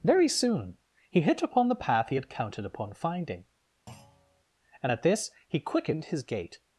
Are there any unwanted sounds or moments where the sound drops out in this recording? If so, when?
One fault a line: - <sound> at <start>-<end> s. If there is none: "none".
- thud at 3.9-4.4 s